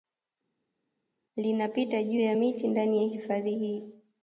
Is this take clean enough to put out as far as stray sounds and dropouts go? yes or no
yes